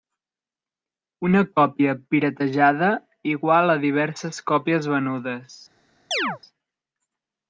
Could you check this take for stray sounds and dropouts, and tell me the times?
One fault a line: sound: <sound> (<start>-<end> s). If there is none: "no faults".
sound: chirp (6.1-6.4 s)